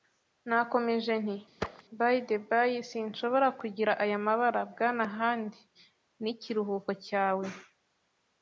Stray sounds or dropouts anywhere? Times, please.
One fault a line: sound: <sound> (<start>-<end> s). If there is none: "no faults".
sound: thud (1.6-1.8 s)